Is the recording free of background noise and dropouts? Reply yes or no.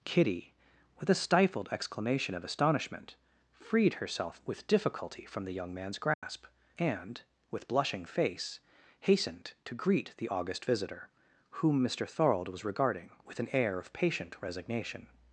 no